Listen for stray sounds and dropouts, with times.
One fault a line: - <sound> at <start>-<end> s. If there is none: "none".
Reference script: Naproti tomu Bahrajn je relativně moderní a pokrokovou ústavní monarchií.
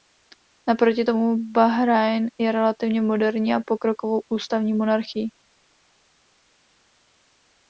none